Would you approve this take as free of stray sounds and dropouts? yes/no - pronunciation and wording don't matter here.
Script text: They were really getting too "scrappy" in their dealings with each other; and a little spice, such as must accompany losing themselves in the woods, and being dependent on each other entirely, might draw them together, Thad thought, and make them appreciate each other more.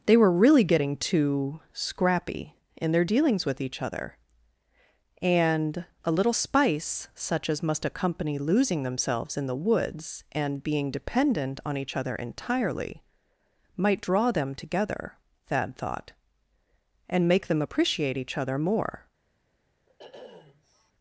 no